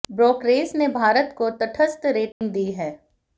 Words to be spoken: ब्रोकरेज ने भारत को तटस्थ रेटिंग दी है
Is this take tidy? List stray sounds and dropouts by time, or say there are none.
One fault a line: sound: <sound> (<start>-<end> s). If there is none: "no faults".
sound: dropout (2.3-2.4 s)